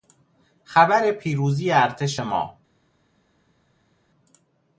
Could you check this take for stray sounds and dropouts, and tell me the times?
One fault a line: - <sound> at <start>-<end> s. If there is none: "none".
none